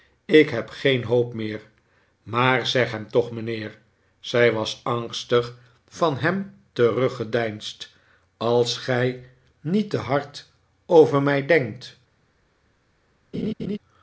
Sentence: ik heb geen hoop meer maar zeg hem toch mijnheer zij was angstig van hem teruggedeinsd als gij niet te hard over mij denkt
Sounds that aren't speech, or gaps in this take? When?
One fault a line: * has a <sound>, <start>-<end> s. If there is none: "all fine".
* has a laugh, 13.3-13.8 s